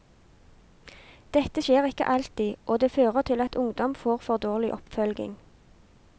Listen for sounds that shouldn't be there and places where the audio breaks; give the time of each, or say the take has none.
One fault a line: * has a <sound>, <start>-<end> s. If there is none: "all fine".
* has a dropout, 3.5-3.5 s